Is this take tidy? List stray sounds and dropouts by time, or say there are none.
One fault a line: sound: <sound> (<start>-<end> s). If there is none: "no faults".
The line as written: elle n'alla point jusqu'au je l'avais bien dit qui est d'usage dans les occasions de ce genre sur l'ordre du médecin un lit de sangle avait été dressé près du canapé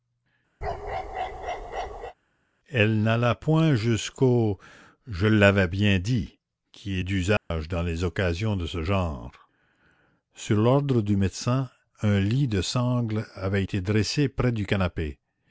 sound: bark (0.6-2.1 s)
sound: dropout (7.4-7.5 s)